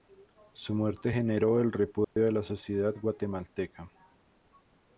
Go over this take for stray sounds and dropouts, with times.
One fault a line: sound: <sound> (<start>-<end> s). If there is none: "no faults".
sound: dropout (2.0-2.2 s)